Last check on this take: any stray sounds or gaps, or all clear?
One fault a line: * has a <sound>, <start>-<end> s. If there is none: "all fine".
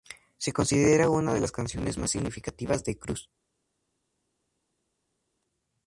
all fine